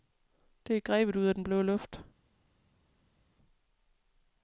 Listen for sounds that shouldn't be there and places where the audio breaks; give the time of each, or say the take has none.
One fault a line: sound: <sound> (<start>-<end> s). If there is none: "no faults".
no faults